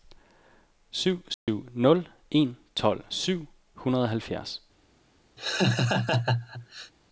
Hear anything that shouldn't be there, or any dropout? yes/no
yes